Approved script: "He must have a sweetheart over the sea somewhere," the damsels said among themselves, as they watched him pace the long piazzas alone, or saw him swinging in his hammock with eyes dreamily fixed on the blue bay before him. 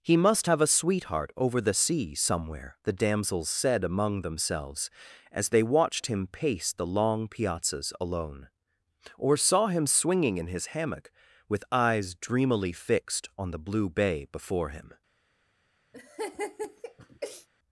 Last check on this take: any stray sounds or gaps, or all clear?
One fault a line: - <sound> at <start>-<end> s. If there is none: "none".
- laugh at 15.9-17.5 s